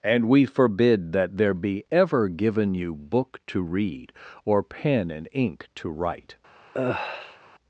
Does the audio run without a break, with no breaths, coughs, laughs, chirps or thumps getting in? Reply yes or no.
no